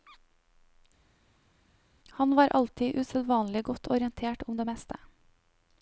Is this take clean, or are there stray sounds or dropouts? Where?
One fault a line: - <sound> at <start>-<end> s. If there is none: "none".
none